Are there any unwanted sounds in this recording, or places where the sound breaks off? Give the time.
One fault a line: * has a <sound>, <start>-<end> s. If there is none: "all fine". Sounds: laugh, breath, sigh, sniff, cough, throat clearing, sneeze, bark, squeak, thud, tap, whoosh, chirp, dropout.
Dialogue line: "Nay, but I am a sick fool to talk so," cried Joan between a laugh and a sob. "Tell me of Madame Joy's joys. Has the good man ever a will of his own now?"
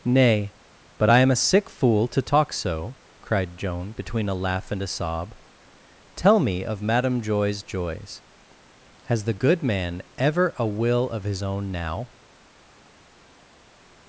all fine